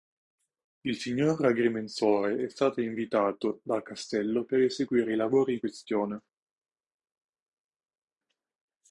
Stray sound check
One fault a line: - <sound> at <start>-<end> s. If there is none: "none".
none